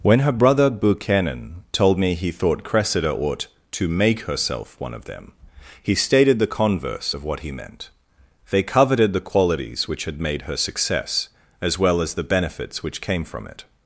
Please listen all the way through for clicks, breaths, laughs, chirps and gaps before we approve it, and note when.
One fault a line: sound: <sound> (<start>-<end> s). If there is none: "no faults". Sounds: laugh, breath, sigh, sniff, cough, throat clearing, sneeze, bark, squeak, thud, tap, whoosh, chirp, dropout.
no faults